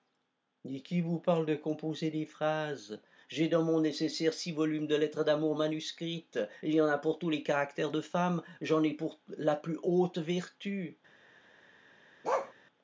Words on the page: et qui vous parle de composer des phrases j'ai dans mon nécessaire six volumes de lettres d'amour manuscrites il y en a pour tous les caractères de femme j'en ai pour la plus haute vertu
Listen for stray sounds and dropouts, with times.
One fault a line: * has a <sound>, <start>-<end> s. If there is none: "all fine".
* has a bark, 12.2-12.5 s